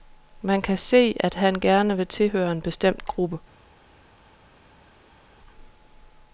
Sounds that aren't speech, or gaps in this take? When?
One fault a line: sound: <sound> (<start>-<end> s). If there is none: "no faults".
no faults